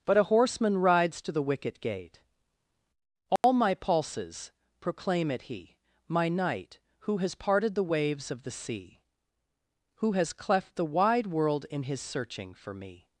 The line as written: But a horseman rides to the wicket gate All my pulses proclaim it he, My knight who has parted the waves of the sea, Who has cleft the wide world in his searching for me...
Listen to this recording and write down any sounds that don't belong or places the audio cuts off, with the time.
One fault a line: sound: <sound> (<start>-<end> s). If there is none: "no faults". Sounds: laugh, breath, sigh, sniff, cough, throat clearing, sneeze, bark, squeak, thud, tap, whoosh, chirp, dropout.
sound: dropout (3.4-3.4 s)